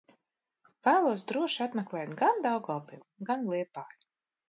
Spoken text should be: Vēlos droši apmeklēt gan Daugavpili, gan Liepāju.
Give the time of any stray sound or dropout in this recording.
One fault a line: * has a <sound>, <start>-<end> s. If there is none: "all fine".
all fine